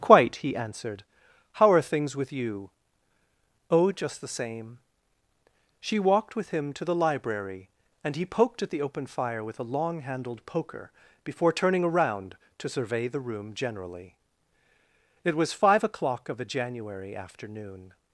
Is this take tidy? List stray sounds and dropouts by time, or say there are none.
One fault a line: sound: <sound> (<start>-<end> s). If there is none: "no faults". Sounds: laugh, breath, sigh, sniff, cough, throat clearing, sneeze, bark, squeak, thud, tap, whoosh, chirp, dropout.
no faults